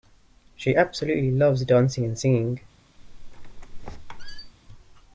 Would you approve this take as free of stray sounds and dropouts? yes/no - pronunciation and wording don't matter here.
no